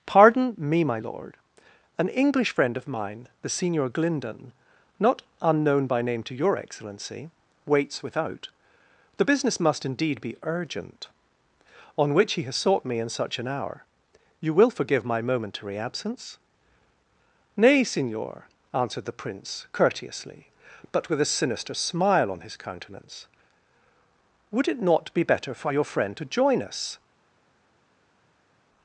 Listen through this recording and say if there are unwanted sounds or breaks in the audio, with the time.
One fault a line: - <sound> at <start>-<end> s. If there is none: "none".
none